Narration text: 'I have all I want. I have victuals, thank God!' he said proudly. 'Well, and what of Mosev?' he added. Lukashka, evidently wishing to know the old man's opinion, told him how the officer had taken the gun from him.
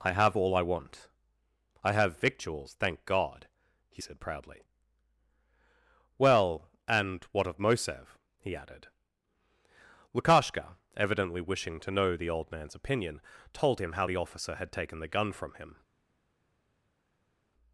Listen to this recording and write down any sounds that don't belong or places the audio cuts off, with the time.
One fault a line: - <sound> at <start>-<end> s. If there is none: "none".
none